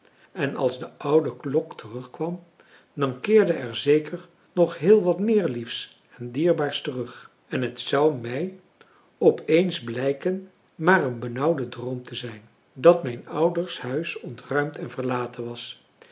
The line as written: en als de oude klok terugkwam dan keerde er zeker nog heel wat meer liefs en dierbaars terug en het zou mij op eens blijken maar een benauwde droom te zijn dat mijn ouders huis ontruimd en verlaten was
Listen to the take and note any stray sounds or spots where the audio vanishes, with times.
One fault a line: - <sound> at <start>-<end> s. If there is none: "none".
none